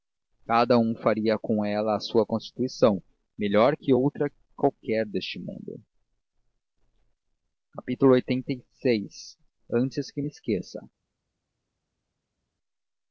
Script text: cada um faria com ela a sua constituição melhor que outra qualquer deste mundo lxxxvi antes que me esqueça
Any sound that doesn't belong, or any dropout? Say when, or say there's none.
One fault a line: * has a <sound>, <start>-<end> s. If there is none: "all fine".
all fine